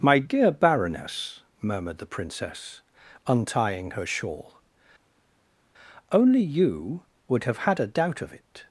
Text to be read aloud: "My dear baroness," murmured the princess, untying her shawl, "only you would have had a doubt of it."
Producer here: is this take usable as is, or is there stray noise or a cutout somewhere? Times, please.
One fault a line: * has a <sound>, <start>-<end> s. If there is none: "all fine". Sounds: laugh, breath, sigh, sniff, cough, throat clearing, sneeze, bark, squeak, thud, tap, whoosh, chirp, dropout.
all fine